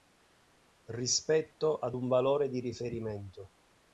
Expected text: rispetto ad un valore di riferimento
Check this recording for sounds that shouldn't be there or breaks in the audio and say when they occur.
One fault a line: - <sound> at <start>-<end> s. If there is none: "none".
none